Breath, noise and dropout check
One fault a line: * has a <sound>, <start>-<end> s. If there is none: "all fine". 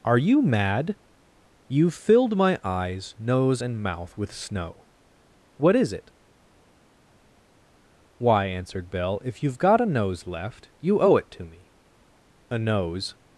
all fine